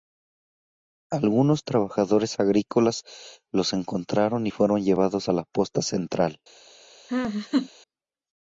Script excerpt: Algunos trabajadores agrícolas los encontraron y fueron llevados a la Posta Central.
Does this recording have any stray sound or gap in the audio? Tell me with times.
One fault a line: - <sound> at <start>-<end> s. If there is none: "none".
- laugh at 7.1-7.7 s